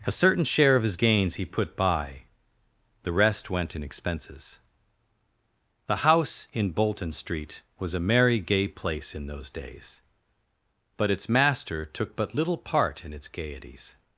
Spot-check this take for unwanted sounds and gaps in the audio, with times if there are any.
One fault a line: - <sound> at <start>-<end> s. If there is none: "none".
none